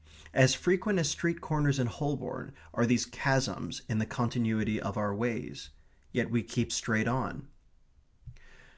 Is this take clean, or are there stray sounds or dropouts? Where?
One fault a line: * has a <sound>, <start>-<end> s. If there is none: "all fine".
all fine